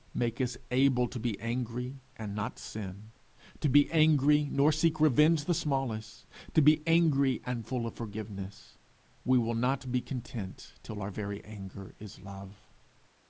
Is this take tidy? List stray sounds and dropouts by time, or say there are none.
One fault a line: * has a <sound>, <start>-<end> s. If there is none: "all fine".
all fine